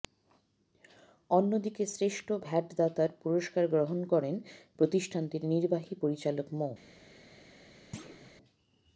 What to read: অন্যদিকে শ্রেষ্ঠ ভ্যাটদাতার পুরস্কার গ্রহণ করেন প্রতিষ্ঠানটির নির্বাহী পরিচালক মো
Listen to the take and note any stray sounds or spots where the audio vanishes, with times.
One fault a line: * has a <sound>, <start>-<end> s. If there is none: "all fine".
* has a thud, 7.9-8.3 s